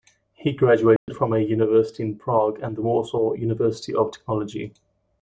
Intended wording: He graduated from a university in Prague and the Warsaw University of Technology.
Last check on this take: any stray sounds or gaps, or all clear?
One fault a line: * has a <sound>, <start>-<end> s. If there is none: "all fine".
* has a dropout, 1.0-1.1 s